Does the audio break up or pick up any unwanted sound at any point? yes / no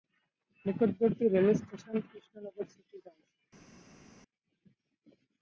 no